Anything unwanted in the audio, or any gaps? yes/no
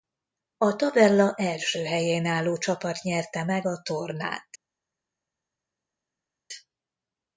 no